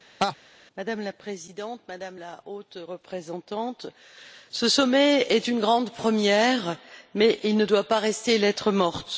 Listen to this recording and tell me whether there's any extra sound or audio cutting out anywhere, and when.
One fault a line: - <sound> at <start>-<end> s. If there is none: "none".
- laugh at 0.2-0.4 s